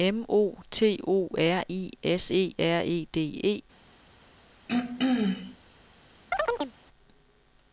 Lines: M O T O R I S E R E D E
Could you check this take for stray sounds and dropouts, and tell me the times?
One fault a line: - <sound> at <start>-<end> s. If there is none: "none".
- throat clearing at 4.7-5.6 s
- chirp at 6.3-6.7 s